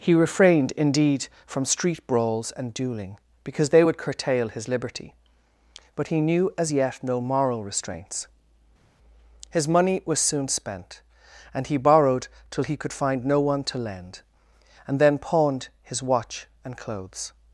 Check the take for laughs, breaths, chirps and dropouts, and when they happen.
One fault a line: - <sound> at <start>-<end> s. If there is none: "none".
none